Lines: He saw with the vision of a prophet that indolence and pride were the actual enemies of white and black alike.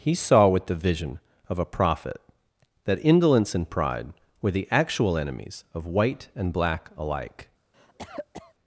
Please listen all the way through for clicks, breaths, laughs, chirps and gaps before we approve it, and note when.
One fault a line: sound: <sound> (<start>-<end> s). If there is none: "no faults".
sound: cough (7.7-8.5 s)